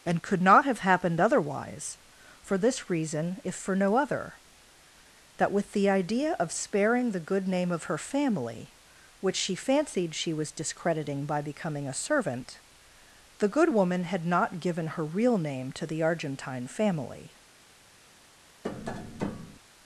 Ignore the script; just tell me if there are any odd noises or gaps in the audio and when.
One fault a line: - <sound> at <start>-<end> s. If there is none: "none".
- tap at 18.6-19.6 s